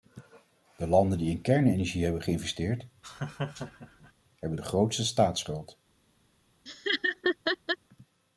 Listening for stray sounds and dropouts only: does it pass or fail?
fail